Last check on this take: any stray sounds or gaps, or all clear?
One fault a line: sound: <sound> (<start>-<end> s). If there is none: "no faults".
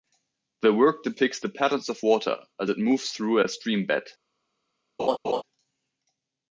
sound: laugh (5.0-5.4 s)